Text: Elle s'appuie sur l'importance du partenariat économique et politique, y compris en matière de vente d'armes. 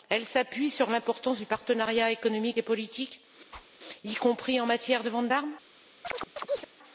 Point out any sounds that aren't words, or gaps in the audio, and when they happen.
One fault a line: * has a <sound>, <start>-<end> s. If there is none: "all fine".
* has a whoosh, 3.5-3.7 s
* has a chirp, 6.0-6.7 s